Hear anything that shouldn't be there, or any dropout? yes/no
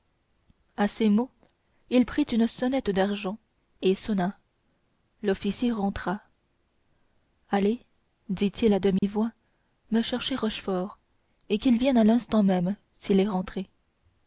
yes